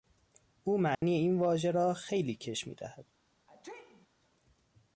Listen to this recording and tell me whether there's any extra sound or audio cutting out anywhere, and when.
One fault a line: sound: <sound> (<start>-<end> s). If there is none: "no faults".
sound: dropout (0.9-1.0 s)
sound: sneeze (3.5-4.1 s)